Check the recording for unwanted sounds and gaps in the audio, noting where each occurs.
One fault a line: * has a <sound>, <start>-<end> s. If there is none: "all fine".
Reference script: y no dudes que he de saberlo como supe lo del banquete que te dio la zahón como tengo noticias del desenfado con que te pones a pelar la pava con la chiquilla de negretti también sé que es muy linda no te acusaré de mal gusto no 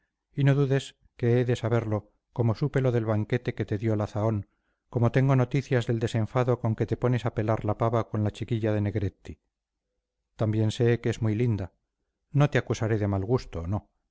all fine